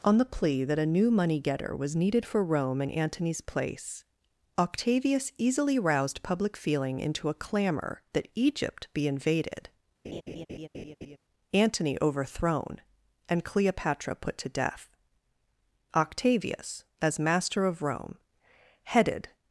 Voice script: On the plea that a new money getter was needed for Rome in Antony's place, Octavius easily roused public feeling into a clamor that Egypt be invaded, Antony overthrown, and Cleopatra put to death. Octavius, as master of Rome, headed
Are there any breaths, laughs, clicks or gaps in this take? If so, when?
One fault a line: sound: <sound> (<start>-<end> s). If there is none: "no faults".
sound: laugh (10.0-11.2 s)